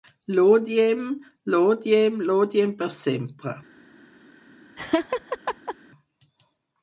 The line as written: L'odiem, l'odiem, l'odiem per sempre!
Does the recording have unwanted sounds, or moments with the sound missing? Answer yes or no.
yes